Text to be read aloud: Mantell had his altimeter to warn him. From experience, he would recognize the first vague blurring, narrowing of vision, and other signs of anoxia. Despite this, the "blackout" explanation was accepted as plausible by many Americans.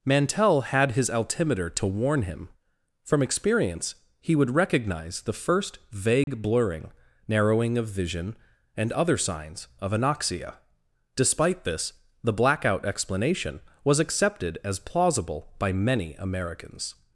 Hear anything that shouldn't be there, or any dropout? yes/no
yes